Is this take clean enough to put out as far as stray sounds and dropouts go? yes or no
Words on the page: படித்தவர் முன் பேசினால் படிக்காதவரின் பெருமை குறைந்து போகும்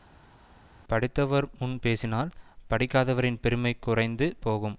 yes